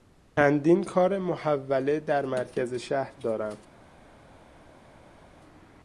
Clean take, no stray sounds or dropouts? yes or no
yes